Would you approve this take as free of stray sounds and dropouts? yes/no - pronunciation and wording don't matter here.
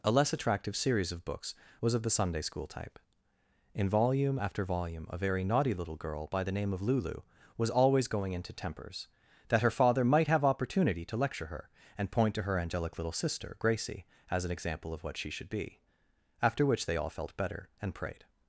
yes